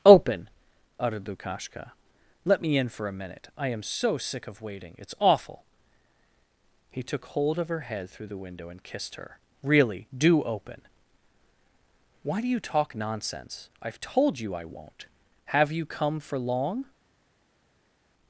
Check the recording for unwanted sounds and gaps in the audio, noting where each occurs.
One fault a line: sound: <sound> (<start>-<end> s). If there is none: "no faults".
no faults